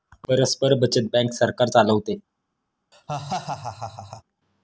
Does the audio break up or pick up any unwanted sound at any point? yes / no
yes